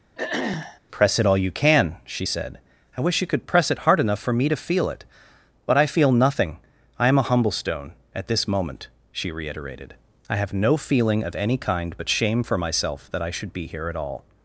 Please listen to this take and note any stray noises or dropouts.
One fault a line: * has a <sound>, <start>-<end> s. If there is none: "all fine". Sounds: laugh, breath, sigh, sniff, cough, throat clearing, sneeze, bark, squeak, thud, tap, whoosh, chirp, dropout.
* has a throat clearing, 0.2-0.8 s